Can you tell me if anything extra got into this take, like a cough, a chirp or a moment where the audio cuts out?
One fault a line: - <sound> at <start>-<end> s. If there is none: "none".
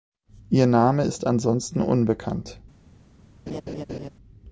- laugh at 3.5-4.1 s